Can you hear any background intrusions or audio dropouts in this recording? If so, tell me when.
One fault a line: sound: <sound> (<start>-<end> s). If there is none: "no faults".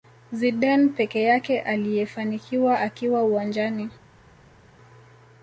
no faults